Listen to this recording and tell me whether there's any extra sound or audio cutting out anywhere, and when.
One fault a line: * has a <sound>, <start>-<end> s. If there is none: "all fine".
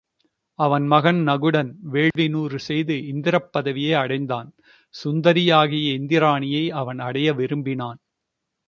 * has a dropout, 2.1-2.2 s